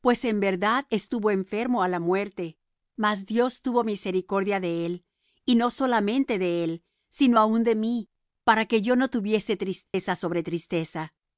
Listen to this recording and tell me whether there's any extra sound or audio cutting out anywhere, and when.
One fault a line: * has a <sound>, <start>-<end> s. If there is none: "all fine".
* has a dropout, 9.9-9.9 s